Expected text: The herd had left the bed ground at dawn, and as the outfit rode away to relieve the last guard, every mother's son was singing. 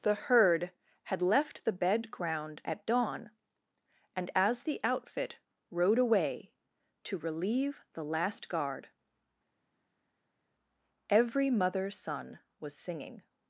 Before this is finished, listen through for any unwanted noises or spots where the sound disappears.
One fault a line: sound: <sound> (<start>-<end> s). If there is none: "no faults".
no faults